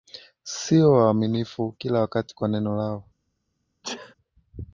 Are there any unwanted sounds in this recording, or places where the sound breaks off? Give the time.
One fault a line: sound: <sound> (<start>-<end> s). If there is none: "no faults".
sound: sneeze (3.8-4.1 s)